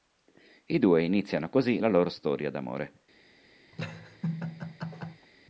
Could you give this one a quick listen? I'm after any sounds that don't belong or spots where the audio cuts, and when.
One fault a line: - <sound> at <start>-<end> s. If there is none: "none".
- laugh at 3.7-5.3 s